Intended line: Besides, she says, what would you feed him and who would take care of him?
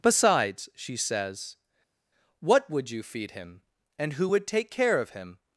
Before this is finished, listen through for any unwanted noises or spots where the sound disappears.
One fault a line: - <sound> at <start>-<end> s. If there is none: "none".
none